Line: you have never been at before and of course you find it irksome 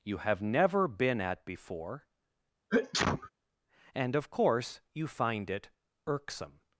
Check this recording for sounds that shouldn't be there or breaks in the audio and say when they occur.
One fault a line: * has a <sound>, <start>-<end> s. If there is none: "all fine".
* has a sneeze, 2.7-3.3 s